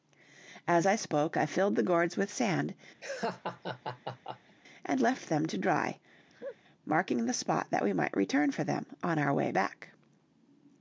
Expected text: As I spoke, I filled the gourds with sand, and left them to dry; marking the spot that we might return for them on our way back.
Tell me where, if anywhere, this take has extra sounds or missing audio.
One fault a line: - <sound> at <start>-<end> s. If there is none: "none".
- laugh at 3.0-4.6 s
- laugh at 6.3-6.6 s